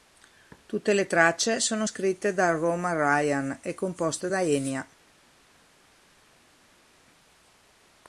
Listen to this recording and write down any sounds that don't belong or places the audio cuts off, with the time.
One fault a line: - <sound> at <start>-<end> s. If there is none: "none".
none